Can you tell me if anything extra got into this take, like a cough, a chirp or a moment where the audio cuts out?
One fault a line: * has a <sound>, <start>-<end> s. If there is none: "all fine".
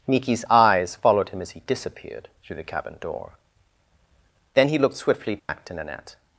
* has a dropout, 5.4-5.5 s